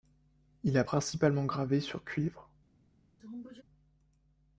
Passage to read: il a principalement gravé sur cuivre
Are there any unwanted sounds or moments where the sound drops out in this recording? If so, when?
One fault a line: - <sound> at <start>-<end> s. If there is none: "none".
- sneeze at 3.2-3.6 s